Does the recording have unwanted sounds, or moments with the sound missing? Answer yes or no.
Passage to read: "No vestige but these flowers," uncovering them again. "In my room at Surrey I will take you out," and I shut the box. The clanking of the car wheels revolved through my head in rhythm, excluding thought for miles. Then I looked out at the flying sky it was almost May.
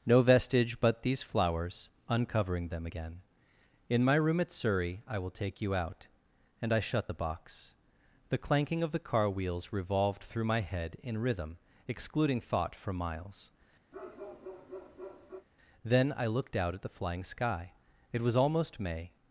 yes